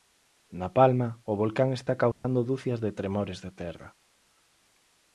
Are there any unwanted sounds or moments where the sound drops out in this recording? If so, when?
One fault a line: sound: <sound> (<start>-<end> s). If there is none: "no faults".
sound: dropout (2.1-2.2 s)